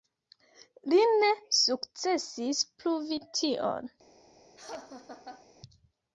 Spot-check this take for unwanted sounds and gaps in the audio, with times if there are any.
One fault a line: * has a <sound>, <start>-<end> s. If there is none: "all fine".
* has a laugh, 4.6-5.5 s